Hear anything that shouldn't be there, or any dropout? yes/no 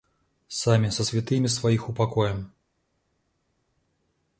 no